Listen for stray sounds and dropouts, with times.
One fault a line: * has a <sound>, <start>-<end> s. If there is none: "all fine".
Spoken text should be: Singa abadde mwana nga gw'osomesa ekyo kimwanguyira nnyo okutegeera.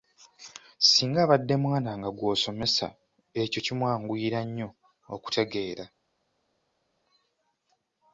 all fine